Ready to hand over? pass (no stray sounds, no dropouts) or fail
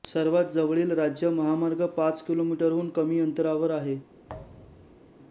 fail